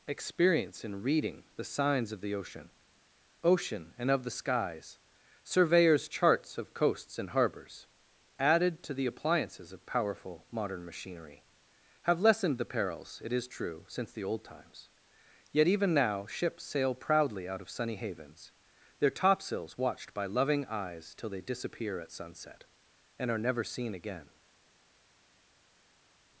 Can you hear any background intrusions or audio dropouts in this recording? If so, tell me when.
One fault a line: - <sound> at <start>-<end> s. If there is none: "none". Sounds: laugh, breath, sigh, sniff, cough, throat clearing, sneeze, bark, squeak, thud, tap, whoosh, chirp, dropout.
none